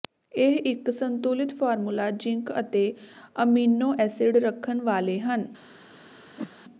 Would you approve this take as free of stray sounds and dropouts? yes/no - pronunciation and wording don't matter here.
no